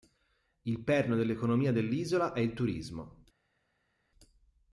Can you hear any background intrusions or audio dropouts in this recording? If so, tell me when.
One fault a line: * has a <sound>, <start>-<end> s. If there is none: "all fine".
all fine